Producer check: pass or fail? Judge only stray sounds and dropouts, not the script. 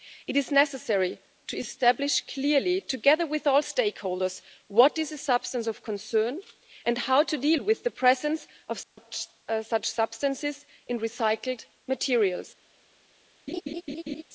fail